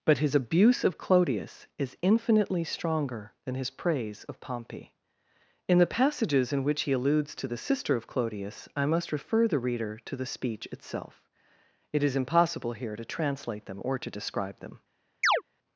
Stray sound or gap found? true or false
true